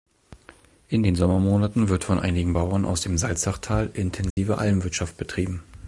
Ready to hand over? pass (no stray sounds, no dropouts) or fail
fail